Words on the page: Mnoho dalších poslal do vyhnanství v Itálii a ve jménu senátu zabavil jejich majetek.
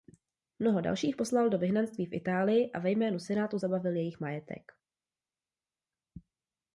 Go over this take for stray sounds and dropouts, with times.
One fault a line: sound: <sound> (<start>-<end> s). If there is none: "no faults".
no faults